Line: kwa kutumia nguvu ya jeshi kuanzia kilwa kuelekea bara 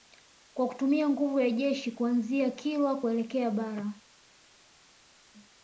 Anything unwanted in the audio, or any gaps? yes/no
no